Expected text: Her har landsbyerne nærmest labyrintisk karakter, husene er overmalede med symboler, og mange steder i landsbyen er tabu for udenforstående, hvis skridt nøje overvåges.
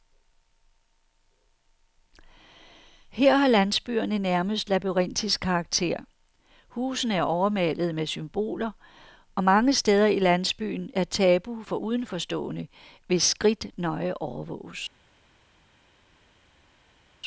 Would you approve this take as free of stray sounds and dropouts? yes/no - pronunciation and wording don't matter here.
yes